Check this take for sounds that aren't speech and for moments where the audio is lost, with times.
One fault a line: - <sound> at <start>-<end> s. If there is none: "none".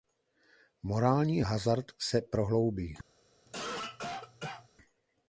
- cough at 3.5-4.7 s